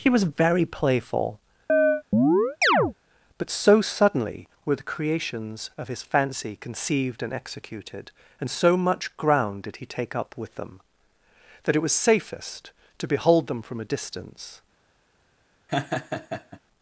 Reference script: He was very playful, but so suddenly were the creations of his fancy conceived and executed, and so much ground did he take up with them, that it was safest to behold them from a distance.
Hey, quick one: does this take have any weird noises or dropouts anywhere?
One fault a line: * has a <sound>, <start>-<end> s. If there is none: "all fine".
* has a chirp, 1.7-2.9 s
* has a laugh, 15.7-16.6 s